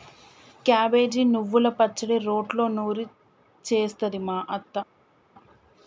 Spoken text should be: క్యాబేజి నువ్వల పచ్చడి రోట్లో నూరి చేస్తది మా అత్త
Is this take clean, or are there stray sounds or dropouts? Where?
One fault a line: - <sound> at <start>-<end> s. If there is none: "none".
none